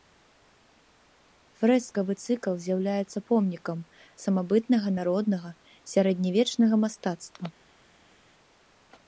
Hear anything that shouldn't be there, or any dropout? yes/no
no